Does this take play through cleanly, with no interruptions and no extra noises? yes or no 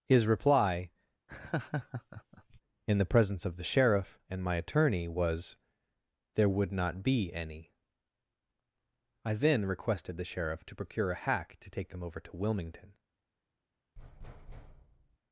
no